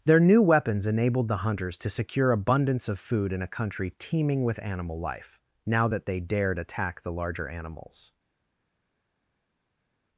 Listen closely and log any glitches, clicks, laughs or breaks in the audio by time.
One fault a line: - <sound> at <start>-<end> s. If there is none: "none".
none